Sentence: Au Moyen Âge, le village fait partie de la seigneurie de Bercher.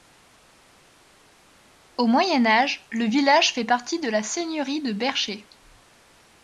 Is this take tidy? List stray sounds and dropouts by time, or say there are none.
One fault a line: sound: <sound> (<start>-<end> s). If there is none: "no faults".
no faults